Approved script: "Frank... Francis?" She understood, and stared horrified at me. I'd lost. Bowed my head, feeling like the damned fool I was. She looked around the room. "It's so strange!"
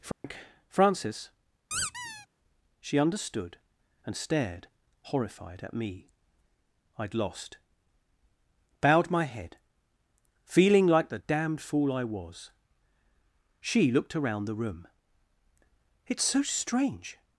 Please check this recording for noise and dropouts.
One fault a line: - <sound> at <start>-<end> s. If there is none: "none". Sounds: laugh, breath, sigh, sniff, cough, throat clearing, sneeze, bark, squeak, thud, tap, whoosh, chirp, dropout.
- dropout at 0.1-0.2 s
- squeak at 1.7-2.3 s